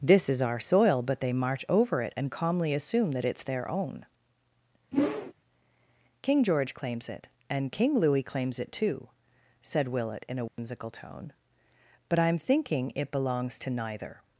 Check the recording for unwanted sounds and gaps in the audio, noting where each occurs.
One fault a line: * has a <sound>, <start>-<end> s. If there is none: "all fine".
* has a whoosh, 4.9-5.3 s
* has a dropout, 10.5-10.6 s